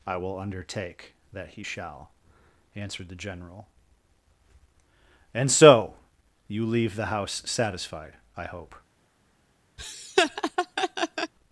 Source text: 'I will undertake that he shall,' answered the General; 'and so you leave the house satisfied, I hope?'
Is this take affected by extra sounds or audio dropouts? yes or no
yes